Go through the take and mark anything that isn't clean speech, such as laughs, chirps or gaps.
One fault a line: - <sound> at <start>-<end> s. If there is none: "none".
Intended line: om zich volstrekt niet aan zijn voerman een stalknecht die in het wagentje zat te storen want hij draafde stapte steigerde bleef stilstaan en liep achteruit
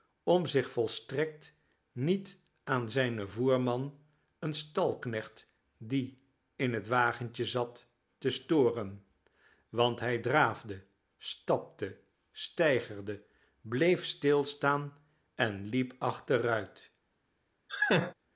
- laugh at 17.7-18.1 s